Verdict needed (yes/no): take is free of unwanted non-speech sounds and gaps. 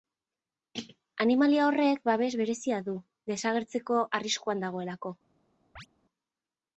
no